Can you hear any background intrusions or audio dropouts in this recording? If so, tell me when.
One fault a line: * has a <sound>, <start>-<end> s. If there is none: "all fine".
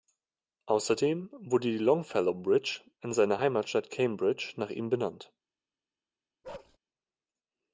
* has a bark, 6.4-6.8 s